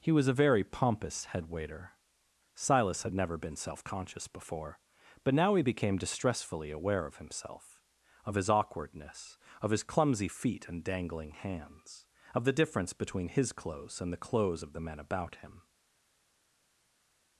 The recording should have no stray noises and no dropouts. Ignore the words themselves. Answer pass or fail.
pass